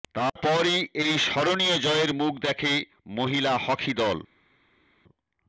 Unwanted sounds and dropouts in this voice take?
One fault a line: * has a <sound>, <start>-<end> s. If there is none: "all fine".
all fine